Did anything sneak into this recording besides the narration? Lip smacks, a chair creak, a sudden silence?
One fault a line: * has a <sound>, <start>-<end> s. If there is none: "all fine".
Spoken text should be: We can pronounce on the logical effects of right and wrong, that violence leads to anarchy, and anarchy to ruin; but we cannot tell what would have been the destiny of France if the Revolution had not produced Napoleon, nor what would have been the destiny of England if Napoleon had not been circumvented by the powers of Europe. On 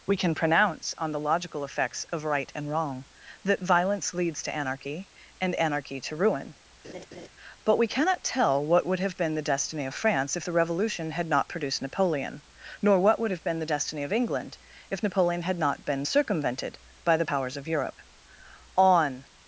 * has a laugh, 6.8-7.3 s